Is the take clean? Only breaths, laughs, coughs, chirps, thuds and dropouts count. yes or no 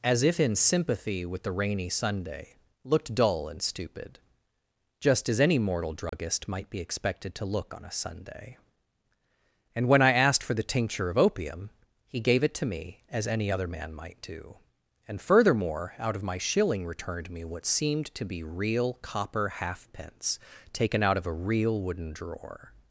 no